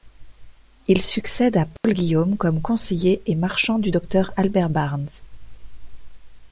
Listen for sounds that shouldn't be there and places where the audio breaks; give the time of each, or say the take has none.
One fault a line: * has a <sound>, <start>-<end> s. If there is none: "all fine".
* has a dropout, 1.8-1.8 s